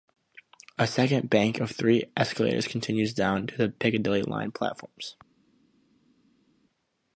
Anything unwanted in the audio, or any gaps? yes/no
no